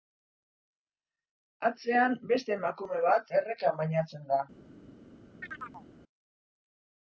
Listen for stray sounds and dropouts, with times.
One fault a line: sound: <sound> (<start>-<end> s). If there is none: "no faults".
sound: chirp (5.4-5.9 s)